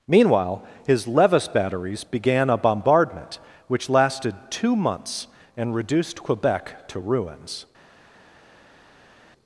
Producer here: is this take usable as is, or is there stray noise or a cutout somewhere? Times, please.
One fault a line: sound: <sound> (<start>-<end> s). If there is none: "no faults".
no faults